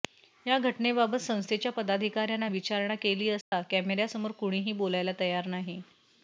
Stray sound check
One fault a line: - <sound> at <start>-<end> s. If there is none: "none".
- dropout at 3.4-3.5 s